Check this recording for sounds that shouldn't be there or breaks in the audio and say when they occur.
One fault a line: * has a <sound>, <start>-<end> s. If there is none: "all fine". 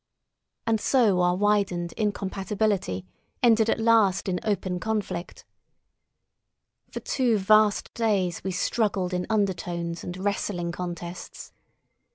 all fine